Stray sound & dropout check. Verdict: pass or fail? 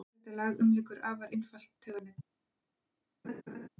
fail